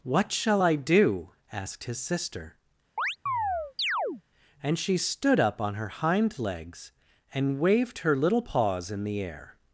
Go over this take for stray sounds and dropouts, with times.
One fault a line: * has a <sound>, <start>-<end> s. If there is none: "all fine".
* has a chirp, 3.0-4.2 s